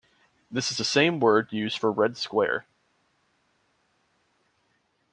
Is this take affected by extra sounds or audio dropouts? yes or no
no